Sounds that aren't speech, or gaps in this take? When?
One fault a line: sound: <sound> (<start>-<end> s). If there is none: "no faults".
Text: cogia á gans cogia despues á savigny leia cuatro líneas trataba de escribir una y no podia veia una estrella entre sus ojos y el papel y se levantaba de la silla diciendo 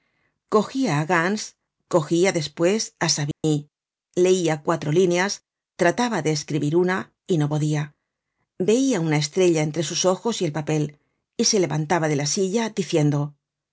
sound: dropout (3.3-3.4 s)